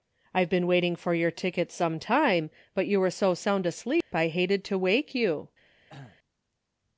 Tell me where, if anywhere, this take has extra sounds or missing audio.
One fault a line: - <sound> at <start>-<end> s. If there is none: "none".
- dropout at 4.0-4.1 s
- cough at 5.9-6.2 s